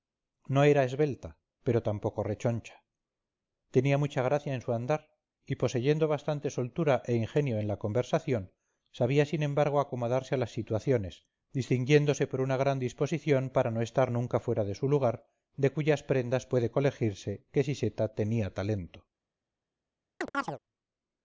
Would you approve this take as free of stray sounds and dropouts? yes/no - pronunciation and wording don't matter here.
no